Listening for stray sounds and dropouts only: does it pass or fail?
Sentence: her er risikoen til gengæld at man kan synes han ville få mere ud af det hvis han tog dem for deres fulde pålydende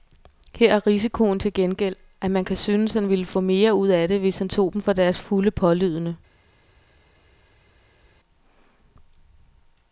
pass